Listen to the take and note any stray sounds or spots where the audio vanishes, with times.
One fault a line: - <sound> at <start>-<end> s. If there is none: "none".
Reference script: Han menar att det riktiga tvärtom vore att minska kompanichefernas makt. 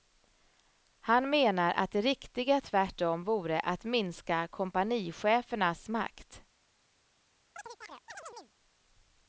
- chirp at 7.6-8.5 s